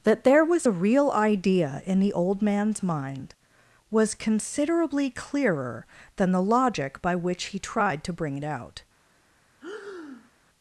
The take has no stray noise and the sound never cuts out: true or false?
false